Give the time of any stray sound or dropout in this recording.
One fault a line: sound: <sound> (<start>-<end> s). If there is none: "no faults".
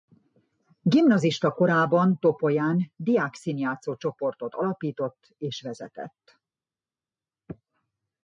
no faults